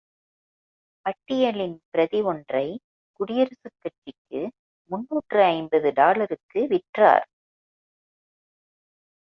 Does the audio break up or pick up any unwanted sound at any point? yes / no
no